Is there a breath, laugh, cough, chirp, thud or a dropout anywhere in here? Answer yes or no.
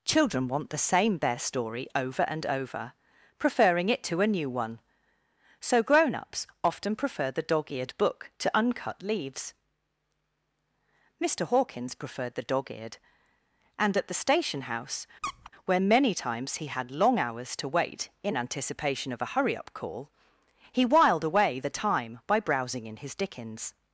yes